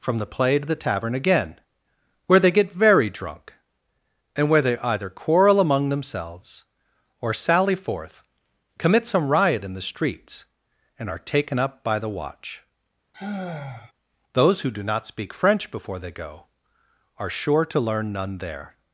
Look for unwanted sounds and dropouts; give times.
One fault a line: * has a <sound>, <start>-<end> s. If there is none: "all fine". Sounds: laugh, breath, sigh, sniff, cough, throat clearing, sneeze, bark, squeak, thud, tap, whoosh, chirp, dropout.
* has a sigh, 13.1-13.9 s